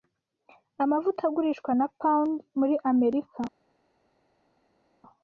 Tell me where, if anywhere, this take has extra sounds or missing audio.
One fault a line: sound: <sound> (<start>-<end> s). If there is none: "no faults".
no faults